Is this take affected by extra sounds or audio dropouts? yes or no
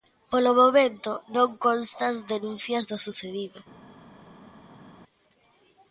no